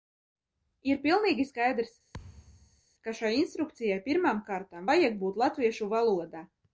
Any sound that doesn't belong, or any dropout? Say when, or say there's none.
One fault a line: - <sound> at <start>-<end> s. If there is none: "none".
- thud at 2.1-2.8 s